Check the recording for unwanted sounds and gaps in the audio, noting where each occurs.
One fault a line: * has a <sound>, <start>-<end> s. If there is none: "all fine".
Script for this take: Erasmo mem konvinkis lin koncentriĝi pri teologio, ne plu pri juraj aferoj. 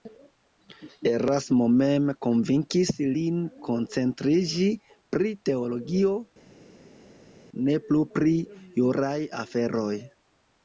all fine